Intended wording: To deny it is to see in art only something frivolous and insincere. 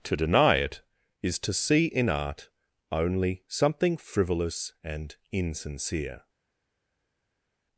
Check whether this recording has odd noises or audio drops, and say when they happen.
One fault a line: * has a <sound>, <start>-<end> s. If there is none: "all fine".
all fine